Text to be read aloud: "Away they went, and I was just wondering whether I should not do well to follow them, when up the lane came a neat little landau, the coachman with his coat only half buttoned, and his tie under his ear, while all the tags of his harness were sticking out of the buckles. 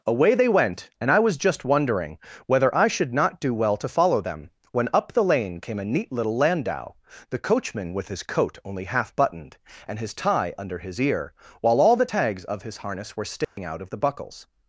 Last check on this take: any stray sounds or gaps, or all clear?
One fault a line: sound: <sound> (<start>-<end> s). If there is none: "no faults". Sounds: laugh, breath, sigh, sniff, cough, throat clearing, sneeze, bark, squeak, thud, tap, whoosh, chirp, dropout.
sound: dropout (13.4-13.6 s)